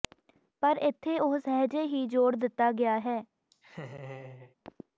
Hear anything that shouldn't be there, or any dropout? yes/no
yes